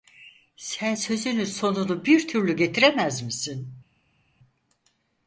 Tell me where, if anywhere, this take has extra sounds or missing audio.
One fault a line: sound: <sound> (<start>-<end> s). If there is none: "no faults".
no faults